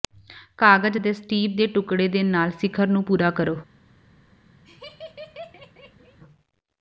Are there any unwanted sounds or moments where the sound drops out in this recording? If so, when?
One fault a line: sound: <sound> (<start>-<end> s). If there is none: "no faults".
sound: laugh (4.6-6.2 s)